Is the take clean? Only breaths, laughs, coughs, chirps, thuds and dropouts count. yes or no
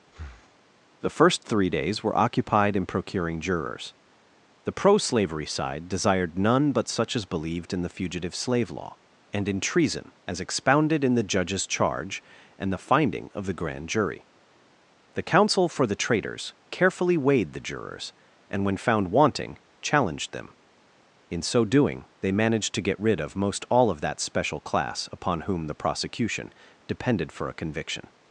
no